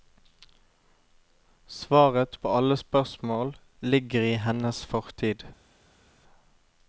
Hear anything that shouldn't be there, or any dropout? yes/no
no